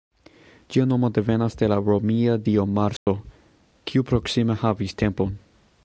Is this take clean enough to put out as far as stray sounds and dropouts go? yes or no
no